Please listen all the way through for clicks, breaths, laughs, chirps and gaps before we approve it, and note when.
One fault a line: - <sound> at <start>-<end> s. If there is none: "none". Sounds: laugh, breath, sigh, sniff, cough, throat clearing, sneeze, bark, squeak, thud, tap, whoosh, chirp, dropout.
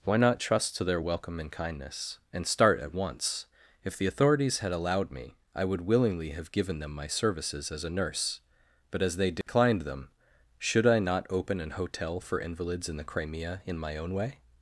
- dropout at 9.4-9.5 s